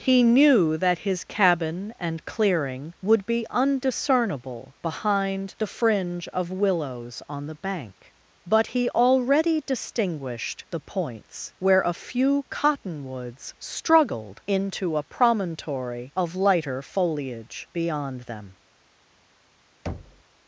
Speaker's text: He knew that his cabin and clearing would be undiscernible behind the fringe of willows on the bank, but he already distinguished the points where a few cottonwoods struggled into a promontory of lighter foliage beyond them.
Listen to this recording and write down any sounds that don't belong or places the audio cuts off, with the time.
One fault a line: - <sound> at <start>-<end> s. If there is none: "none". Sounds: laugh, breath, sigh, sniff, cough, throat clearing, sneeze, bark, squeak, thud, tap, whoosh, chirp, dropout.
- thud at 19.9-20.2 s